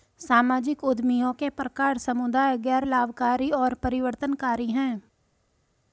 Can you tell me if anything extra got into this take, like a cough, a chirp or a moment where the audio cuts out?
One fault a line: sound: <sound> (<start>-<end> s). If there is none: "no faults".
no faults